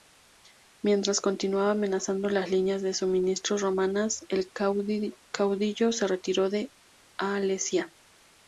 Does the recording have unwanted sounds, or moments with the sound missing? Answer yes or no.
no